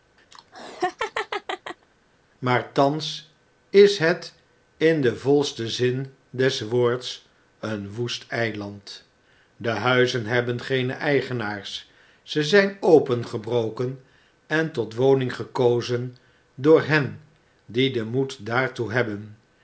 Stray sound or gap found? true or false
true